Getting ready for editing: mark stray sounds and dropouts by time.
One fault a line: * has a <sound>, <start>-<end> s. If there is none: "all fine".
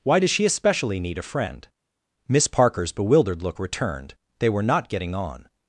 all fine